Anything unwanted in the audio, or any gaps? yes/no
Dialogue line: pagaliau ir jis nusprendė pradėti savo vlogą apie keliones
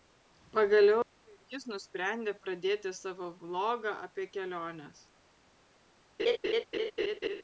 yes